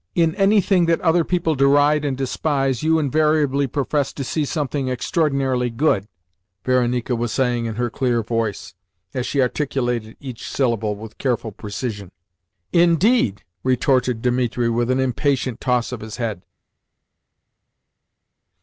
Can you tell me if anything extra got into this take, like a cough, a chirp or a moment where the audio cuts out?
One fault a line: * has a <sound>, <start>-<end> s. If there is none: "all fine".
all fine